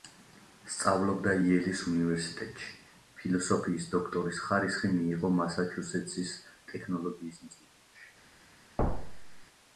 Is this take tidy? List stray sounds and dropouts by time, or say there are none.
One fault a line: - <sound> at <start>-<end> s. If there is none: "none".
- thud at 8.8-9.4 s